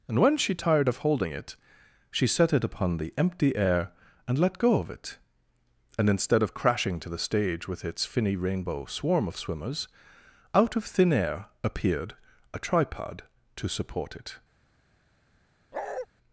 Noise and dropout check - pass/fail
fail